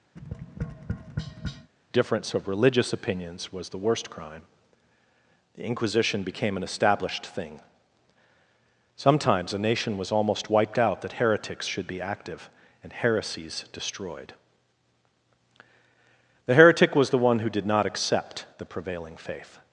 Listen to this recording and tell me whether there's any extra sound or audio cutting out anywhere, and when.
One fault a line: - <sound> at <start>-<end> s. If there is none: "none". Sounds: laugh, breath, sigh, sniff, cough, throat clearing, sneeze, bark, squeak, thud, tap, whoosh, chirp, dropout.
- tap at 0.2-1.7 s